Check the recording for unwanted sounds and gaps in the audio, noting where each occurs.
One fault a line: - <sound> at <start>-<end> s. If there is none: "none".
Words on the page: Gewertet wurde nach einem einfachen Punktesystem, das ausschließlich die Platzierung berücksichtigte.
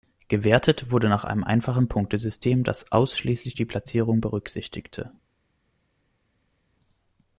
none